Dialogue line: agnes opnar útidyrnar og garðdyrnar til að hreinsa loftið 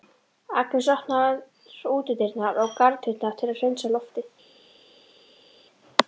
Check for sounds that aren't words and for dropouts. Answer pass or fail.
pass